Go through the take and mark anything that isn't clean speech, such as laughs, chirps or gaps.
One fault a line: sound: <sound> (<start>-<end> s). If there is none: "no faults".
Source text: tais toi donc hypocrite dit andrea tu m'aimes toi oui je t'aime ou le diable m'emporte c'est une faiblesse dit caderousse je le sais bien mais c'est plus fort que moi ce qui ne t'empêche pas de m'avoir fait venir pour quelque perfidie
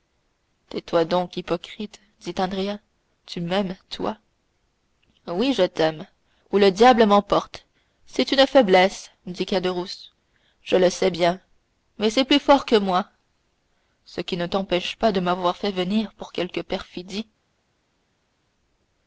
no faults